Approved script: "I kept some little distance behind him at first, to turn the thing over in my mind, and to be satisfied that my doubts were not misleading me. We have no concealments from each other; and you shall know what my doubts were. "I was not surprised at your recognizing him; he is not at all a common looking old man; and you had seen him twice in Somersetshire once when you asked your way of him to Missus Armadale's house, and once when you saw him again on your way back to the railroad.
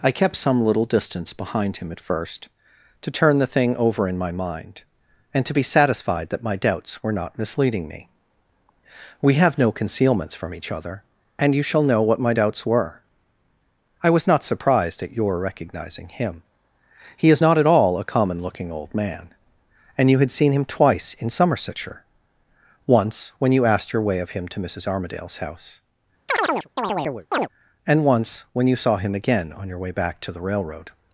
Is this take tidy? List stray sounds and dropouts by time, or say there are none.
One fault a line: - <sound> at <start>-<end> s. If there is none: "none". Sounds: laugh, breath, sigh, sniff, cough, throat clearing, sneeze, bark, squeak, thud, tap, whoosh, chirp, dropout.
- chirp at 26.3-27.5 s